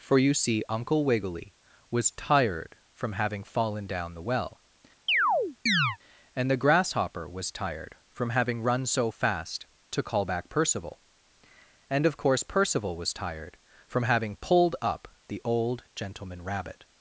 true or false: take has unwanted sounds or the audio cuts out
true